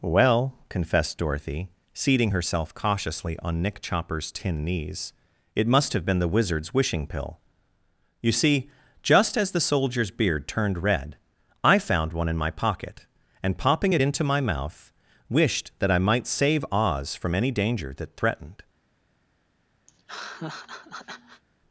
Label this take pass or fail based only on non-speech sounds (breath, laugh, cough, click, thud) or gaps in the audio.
fail